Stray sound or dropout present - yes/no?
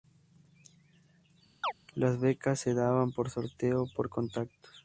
yes